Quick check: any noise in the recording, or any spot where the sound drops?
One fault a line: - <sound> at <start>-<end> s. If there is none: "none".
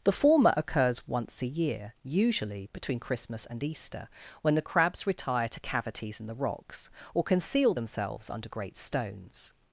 none